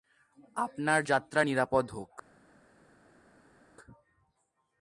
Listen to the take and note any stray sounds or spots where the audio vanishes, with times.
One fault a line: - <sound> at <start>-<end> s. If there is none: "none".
none